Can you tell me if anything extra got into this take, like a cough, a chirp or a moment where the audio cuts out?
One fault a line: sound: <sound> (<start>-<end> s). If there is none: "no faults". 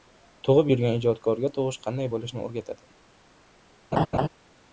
sound: laugh (3.9-4.3 s)